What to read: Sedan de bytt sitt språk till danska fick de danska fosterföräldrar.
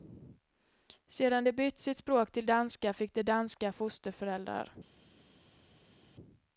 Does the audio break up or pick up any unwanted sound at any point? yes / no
no